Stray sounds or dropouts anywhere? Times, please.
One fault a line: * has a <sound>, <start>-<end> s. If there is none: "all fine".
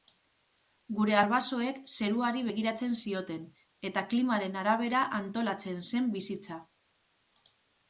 all fine